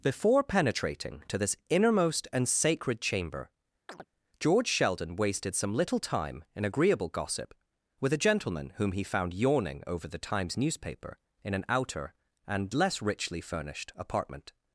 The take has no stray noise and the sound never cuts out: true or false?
false